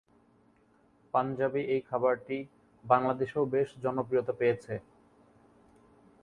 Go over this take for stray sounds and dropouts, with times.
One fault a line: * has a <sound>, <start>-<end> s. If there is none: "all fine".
all fine